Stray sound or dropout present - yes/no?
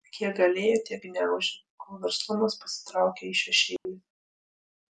yes